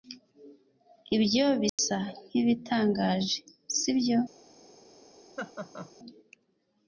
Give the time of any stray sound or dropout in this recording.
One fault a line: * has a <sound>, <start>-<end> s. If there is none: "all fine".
* has a dropout, 1.7-1.8 s
* has a laugh, 5.4-5.9 s